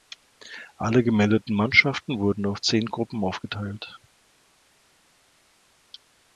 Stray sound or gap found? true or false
false